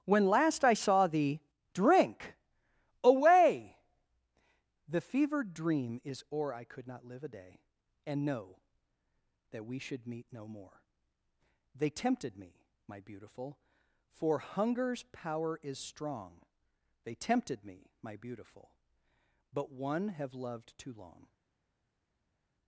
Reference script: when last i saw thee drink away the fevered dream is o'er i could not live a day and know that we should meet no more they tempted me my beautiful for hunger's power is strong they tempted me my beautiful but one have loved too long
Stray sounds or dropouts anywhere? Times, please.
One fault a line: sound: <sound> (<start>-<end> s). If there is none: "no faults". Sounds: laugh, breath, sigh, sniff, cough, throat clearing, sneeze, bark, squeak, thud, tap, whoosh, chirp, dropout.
no faults